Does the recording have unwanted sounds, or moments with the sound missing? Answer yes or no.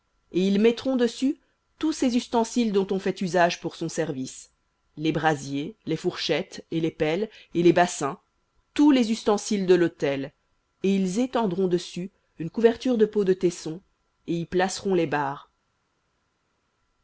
no